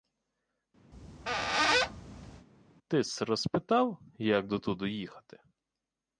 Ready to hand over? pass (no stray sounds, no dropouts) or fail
fail